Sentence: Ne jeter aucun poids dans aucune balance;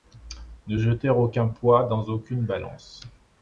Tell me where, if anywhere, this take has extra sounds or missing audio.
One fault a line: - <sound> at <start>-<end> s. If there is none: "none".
none